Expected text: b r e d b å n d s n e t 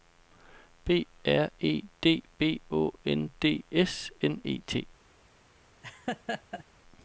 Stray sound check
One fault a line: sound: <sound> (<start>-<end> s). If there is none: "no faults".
sound: laugh (5.8-6.6 s)